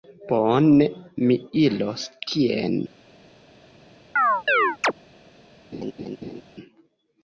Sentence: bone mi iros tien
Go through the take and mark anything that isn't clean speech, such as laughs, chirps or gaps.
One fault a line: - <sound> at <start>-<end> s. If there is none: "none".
- chirp at 4.2-4.9 s
- laugh at 5.7-6.4 s